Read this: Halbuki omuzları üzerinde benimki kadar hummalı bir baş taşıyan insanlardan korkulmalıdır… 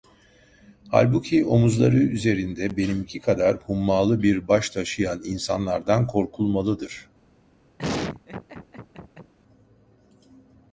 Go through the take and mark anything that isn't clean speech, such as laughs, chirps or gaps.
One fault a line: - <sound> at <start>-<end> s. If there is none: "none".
- laugh at 7.8-9.3 s